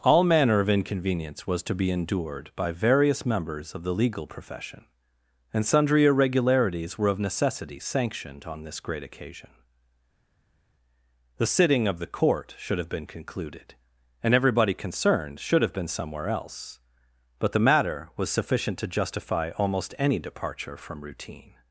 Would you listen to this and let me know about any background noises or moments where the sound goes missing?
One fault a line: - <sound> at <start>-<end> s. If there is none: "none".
none